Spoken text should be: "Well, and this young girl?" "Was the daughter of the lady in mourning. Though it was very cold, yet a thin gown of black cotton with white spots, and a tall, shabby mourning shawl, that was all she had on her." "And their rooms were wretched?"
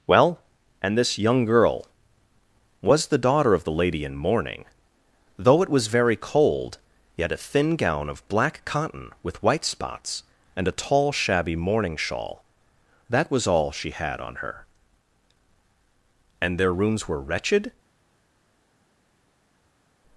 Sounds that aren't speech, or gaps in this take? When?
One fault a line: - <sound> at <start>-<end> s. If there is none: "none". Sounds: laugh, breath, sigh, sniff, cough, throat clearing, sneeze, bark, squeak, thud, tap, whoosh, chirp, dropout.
none